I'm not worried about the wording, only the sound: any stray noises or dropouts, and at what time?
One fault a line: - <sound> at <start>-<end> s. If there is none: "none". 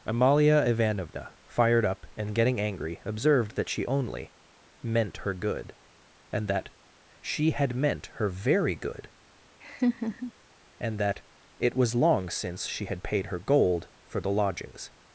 - laugh at 9.6-10.3 s